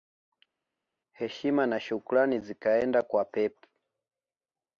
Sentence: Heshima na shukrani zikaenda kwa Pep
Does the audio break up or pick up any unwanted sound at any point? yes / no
no